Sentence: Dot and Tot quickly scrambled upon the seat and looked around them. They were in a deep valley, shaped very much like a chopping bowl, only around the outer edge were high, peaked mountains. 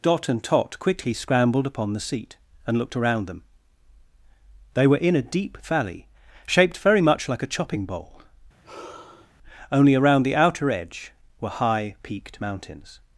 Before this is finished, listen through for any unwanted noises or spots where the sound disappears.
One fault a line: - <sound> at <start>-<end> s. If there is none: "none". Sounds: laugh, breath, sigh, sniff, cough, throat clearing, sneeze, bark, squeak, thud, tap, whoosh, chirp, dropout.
- sigh at 8.6-9.3 s